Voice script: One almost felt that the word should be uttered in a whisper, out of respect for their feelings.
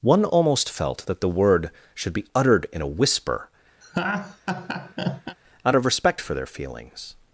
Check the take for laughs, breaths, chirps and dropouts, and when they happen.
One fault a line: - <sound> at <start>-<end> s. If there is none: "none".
- laugh at 3.8-5.4 s